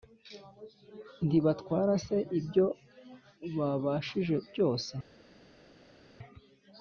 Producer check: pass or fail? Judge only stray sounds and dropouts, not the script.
pass